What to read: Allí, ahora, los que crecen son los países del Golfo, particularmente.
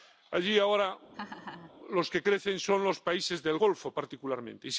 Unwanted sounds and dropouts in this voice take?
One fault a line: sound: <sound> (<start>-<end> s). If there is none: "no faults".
sound: laugh (1.1-1.7 s)